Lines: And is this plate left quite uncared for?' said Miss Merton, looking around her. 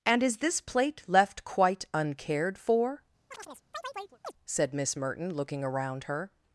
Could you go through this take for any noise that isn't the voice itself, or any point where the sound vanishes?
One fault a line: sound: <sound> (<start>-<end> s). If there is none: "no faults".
sound: chirp (3.3-4.3 s)